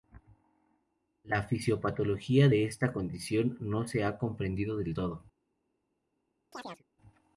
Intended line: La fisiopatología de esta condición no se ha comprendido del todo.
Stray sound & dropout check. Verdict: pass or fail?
fail